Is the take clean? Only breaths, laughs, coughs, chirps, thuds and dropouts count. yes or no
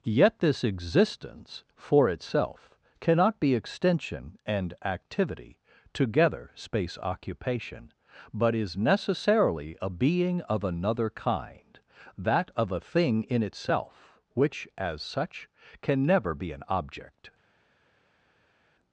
yes